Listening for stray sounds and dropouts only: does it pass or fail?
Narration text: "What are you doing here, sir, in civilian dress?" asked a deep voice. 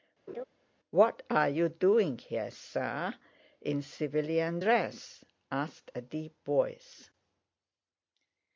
fail